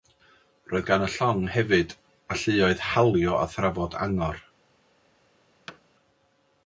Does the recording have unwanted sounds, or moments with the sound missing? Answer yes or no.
yes